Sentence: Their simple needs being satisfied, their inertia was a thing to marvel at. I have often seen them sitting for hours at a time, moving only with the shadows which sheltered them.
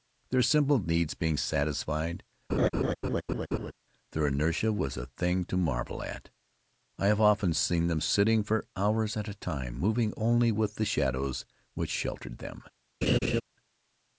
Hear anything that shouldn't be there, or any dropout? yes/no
yes